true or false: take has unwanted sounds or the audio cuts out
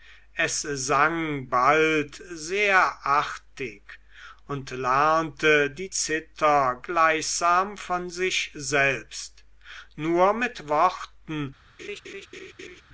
true